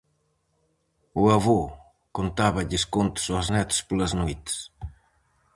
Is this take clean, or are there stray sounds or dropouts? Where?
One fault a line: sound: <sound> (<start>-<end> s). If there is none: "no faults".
no faults